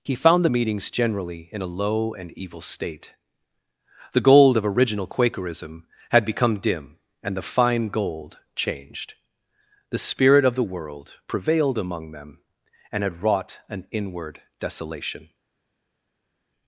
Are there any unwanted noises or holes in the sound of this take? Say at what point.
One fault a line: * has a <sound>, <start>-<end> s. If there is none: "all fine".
all fine